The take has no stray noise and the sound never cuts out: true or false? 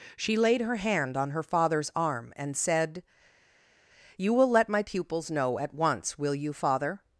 true